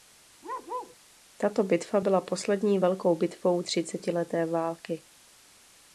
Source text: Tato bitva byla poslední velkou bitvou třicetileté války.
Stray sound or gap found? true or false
true